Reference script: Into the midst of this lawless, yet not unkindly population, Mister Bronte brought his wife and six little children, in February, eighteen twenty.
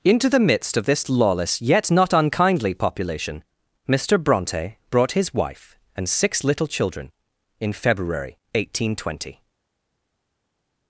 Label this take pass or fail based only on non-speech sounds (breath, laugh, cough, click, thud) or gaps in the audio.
pass